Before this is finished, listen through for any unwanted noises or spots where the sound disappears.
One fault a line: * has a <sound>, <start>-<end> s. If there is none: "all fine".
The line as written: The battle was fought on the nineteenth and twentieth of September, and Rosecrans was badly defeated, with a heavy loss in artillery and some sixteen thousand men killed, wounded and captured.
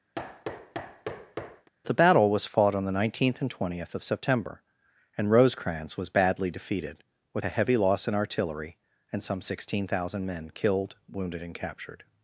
* has a thud, 0.1-1.7 s